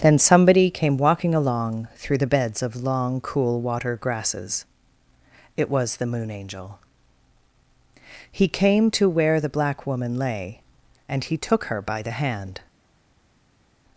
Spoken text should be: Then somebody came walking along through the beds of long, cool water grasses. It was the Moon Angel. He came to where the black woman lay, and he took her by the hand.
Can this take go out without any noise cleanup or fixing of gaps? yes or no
yes